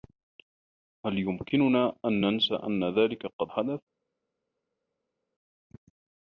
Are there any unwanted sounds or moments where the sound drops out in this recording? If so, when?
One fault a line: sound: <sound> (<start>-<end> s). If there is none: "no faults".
no faults